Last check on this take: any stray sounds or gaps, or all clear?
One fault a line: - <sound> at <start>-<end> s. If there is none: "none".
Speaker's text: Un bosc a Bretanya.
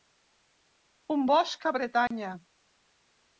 - dropout at 2.1-2.1 s